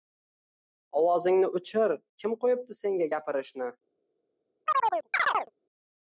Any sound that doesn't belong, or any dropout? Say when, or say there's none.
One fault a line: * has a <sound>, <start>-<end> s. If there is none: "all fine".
* has a chirp, 4.7-5.5 s